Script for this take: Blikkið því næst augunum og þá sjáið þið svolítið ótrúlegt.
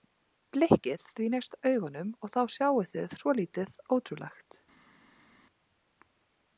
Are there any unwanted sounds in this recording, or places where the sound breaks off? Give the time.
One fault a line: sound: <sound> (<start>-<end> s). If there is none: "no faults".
no faults